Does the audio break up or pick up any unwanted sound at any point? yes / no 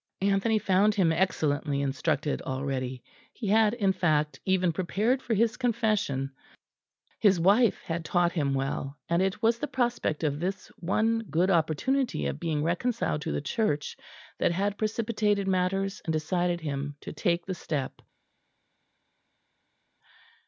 no